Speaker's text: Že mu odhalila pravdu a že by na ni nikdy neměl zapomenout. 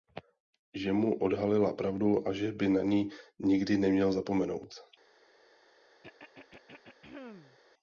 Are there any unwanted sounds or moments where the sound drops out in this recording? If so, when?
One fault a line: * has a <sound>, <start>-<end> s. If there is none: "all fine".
* has a throat clearing, 6.0-7.6 s